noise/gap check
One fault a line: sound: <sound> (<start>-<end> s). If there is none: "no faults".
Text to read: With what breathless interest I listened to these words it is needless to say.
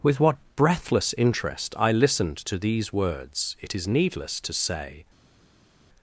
no faults